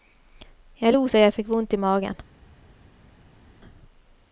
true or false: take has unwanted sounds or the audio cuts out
false